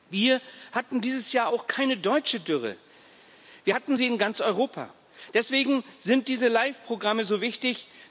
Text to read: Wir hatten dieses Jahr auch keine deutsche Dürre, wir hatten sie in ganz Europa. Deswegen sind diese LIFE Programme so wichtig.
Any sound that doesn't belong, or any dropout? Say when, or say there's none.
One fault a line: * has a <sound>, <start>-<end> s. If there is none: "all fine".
all fine